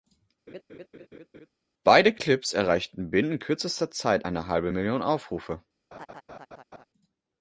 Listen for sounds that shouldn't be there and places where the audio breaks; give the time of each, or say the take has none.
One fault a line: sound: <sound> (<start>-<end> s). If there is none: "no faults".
sound: laugh (0.5-1.5 s)
sound: laugh (5.9-6.8 s)